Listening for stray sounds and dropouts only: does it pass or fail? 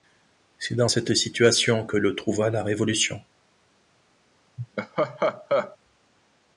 fail